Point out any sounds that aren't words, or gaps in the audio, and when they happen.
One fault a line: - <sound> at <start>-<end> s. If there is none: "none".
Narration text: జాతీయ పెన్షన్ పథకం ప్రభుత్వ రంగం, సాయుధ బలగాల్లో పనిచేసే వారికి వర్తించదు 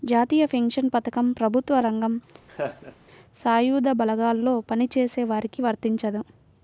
- laugh at 2.5-2.9 s